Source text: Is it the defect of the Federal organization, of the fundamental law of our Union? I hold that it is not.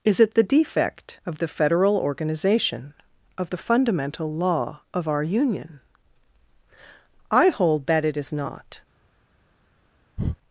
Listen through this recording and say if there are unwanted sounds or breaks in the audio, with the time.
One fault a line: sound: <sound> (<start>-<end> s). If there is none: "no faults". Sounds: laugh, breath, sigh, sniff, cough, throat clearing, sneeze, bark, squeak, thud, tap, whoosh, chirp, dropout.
sound: breath (10.2-10.4 s)